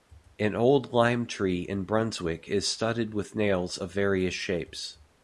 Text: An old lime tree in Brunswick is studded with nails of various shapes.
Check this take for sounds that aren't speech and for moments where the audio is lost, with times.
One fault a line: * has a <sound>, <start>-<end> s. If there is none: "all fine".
all fine